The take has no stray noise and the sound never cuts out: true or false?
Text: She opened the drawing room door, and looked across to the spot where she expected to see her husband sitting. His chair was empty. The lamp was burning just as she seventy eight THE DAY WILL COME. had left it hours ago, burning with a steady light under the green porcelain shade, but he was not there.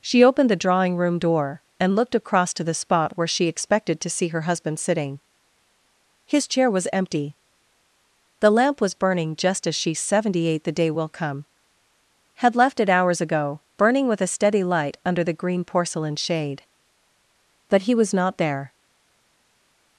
true